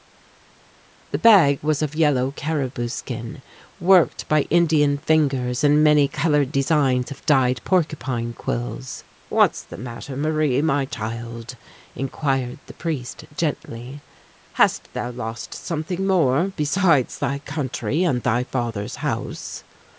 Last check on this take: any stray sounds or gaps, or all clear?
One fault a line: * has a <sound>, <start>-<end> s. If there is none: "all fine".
all fine